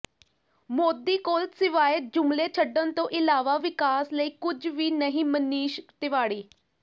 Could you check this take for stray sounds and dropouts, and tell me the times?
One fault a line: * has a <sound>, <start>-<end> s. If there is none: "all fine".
all fine